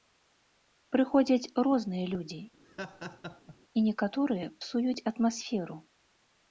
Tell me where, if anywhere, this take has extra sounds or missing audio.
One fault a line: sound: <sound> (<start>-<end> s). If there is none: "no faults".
sound: laugh (2.6-3.6 s)